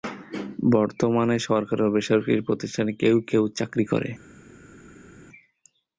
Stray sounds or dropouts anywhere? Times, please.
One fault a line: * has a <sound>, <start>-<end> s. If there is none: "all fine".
all fine